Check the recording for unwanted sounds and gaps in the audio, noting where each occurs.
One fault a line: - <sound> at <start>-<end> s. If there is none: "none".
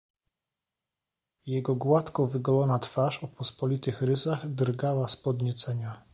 none